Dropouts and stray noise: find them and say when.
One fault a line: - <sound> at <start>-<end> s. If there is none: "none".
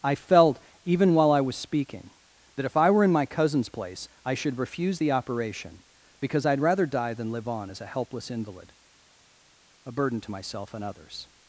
none